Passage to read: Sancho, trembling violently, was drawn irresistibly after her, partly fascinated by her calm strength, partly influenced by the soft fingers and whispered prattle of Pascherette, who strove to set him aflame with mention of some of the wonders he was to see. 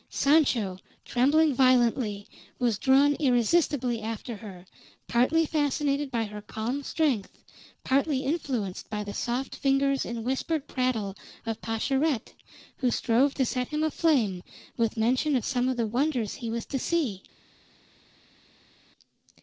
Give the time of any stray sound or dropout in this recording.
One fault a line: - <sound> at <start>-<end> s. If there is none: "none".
none